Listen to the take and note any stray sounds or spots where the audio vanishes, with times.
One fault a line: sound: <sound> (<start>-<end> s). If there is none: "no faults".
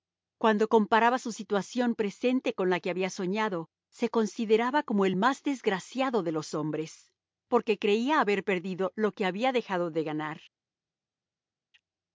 no faults